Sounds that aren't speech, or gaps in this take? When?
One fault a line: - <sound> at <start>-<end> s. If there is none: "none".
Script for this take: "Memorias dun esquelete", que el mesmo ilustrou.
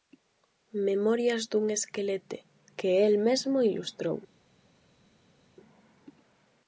none